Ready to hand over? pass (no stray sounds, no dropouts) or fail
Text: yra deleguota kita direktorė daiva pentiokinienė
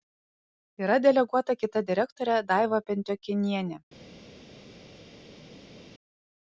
pass